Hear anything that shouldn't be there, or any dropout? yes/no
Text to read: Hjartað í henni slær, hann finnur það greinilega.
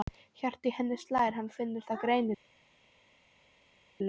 no